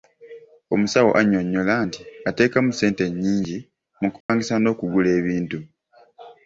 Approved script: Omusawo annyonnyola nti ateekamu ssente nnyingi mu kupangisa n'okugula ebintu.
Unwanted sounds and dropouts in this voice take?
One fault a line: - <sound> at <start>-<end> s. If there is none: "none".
- dropout at 4.2-4.3 s